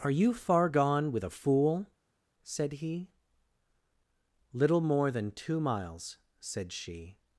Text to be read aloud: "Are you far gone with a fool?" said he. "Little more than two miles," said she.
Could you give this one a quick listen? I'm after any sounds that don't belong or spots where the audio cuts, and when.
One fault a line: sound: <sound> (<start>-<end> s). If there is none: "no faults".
no faults